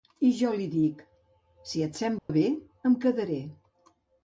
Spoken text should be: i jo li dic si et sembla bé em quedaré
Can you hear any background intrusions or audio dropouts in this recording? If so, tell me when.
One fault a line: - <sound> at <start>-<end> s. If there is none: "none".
- dropout at 2.2-2.3 s